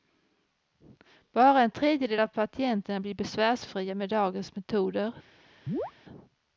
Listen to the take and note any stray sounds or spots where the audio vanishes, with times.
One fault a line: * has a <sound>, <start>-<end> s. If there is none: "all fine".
* has a chirp, 5.7-5.9 s